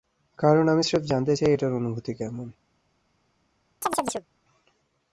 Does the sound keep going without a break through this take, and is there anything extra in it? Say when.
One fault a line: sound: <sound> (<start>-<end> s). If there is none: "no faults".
sound: chirp (3.8-4.3 s)